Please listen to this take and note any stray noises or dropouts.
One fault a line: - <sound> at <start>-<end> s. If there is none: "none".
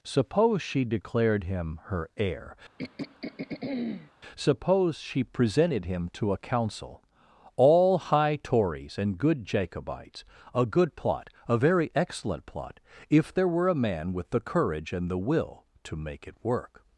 - throat clearing at 2.8-4.1 s